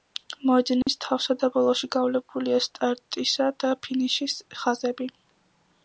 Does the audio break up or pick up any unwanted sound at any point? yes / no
yes